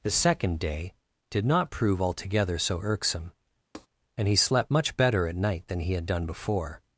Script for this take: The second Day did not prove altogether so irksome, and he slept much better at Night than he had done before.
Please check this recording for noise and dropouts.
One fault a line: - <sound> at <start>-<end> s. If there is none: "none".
- tap at 3.7-3.9 s